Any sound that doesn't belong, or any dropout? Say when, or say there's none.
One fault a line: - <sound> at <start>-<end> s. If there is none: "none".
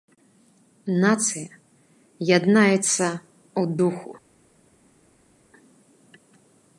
none